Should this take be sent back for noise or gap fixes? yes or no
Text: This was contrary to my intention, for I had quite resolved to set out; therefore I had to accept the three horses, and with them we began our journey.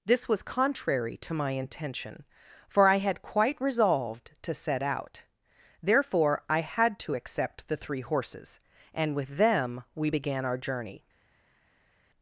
no